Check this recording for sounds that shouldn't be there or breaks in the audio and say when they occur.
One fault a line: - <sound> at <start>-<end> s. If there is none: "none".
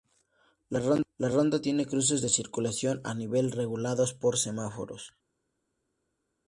none